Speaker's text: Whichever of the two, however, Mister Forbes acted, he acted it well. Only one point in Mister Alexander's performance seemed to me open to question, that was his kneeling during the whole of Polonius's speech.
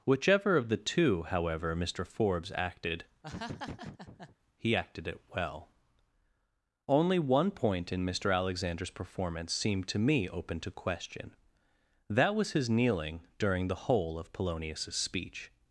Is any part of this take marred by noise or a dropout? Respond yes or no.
yes